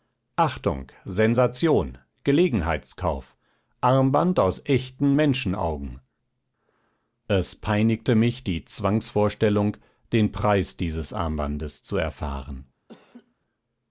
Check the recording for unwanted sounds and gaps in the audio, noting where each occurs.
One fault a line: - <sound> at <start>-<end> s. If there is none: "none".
- laugh at 12.9-13.3 s